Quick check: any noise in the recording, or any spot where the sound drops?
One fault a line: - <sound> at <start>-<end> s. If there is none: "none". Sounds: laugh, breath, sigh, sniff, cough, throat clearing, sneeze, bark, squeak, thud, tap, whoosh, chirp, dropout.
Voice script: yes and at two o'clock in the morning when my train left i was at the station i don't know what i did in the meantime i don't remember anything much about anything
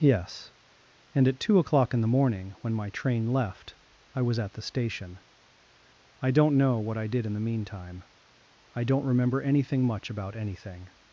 none